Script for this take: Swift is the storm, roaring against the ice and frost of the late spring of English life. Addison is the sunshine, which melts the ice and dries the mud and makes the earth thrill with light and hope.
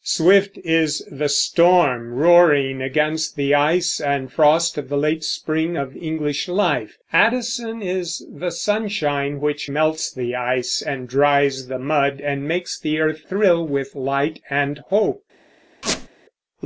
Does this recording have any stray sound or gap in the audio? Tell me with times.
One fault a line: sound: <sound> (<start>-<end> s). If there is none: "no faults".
sound: squeak (15.8-16.1 s)